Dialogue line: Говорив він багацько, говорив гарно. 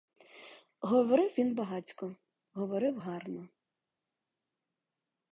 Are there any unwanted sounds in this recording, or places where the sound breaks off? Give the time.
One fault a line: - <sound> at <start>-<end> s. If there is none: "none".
none